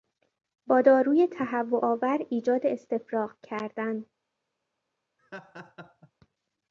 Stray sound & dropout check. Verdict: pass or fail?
fail